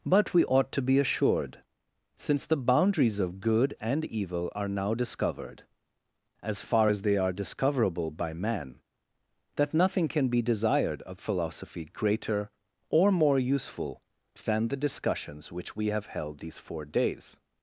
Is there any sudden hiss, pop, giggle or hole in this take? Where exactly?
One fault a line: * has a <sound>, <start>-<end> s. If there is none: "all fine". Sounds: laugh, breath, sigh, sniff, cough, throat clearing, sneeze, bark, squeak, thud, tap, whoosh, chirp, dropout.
all fine